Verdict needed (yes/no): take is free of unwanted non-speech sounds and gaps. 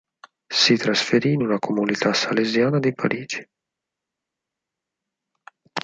yes